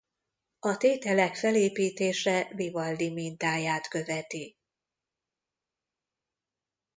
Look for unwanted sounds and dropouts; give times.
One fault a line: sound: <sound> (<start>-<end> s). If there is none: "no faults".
no faults